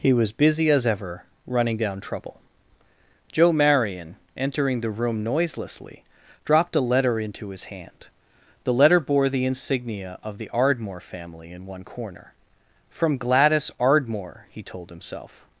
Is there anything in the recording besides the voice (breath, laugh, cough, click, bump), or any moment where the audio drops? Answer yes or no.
no